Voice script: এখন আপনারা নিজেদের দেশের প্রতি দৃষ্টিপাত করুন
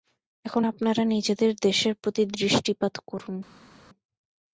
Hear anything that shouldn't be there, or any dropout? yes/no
no